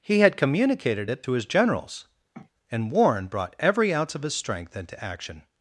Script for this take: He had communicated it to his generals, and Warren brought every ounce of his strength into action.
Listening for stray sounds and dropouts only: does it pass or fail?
fail